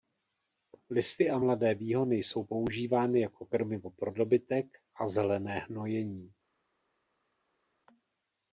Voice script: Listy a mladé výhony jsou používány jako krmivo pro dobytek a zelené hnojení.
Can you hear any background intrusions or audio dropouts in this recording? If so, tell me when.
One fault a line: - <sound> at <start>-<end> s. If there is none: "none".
none